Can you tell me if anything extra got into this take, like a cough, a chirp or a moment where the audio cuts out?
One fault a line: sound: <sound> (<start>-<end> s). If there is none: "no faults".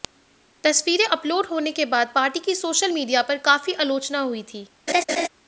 sound: laugh (4.9-5.3 s)